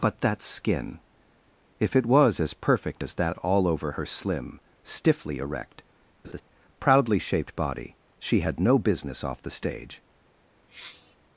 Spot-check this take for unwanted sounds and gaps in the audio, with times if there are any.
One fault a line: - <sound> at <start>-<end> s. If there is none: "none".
- laugh at 6.2-6.4 s
- sniff at 10.7-11.2 s